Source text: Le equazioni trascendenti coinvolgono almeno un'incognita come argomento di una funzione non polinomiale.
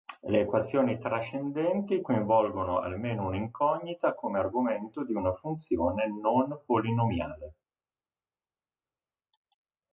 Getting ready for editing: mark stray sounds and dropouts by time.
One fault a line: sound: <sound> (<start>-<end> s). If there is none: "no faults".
no faults